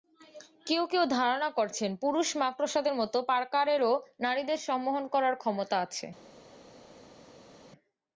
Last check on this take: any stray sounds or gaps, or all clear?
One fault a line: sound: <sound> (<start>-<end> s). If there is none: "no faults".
no faults